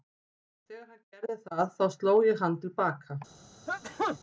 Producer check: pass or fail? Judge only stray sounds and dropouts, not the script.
fail